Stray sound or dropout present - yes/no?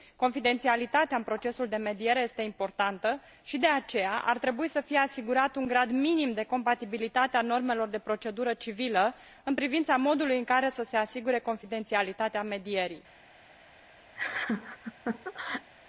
yes